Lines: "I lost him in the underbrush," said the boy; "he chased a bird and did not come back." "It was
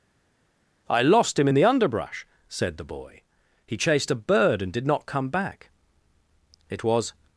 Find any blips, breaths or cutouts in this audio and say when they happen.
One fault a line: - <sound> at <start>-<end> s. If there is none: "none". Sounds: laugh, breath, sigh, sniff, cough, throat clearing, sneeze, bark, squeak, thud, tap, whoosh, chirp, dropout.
none